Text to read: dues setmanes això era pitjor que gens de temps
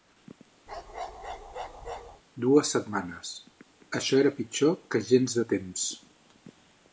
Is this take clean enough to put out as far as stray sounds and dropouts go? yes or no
no